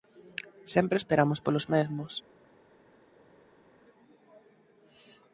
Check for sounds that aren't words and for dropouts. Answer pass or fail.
pass